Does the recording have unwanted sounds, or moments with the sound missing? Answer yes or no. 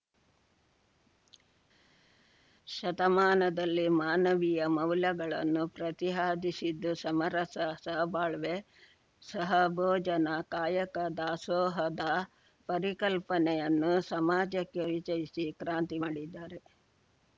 no